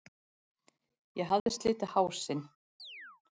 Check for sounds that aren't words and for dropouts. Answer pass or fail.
fail